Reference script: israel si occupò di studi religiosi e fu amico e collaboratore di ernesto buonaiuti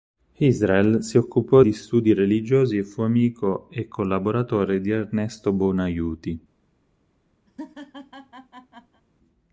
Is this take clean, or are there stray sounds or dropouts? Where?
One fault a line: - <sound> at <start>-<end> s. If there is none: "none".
- laugh at 7.5-9.0 s